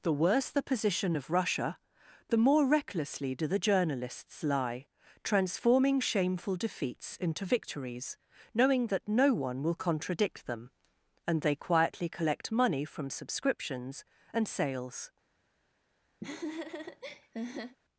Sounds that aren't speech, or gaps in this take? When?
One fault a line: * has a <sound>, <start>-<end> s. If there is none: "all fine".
* has a laugh, 16.2-17.8 s